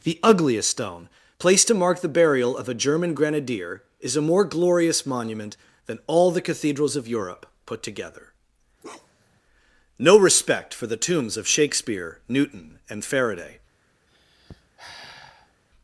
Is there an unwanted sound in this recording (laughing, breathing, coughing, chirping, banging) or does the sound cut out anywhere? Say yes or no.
yes